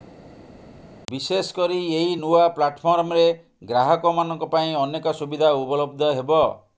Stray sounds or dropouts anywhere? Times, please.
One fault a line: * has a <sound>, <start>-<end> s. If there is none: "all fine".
all fine